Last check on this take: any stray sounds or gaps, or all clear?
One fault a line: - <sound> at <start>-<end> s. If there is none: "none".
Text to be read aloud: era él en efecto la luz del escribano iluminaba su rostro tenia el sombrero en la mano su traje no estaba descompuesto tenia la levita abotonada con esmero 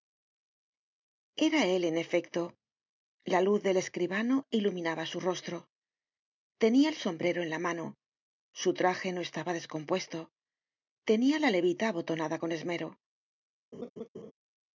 - laugh at 13.7-14.3 s